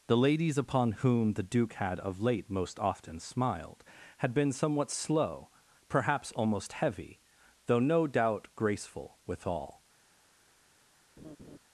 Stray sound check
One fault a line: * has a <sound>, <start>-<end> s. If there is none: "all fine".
* has a laugh, 11.2-11.6 s